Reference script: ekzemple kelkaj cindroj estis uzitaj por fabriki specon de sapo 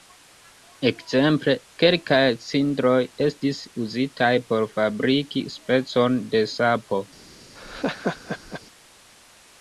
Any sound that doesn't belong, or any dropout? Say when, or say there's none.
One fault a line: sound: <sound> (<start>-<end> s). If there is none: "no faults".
sound: laugh (7.6-8.6 s)